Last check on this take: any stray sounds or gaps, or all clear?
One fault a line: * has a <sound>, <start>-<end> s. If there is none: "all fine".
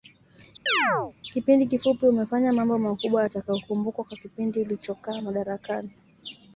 * has a chirp, 0.7-1.1 s